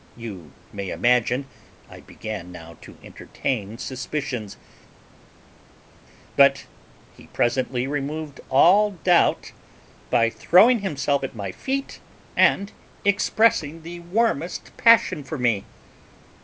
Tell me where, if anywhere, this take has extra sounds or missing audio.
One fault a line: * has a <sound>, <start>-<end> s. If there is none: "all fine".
all fine